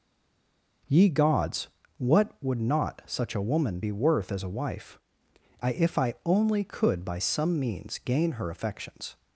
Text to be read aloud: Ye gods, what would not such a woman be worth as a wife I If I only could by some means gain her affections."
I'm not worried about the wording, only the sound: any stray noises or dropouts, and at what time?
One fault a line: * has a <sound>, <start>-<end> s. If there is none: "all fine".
all fine